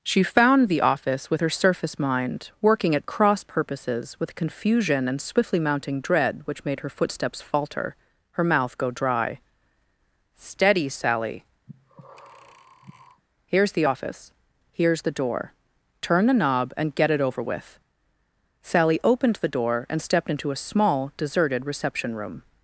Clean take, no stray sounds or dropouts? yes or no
no